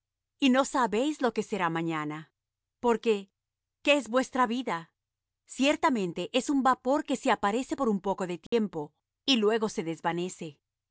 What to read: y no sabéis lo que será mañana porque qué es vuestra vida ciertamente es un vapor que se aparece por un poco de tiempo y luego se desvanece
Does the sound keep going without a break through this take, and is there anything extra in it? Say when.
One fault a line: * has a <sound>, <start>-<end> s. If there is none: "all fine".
* has a dropout, 8.5-8.5 s